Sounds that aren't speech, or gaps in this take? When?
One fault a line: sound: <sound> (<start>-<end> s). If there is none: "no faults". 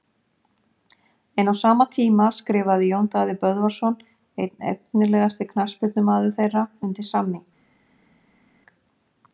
no faults